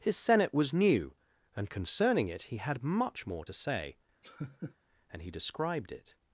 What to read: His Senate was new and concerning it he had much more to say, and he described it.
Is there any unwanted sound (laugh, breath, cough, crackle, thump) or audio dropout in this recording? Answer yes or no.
yes